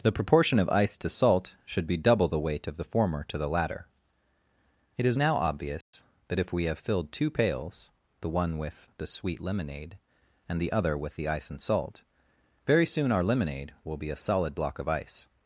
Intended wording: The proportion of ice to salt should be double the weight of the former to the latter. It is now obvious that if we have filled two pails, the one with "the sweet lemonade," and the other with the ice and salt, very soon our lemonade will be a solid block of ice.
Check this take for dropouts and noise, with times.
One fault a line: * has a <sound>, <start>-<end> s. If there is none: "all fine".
* has a dropout, 5.8-5.9 s